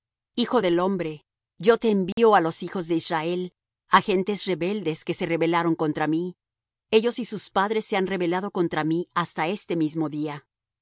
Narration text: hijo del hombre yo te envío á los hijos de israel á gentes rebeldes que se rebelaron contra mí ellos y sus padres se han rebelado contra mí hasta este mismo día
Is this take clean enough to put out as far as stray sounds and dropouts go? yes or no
no